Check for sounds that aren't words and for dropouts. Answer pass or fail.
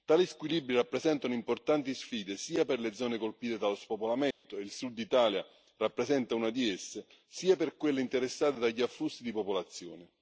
fail